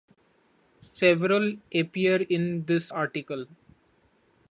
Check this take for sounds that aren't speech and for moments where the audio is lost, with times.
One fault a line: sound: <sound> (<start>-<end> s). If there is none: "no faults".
no faults